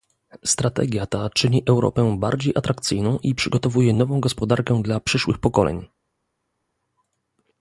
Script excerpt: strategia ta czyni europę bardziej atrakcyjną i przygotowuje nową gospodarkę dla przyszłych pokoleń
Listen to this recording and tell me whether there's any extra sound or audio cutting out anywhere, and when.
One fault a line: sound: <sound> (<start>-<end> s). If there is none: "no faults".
no faults